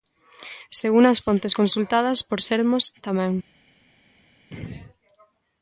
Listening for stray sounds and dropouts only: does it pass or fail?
pass